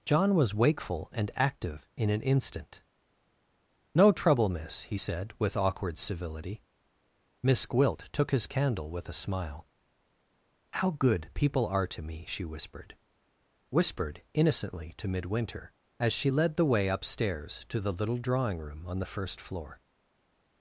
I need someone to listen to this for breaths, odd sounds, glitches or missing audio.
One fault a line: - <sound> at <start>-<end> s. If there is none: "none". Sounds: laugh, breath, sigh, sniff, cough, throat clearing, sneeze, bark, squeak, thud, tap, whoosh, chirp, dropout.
none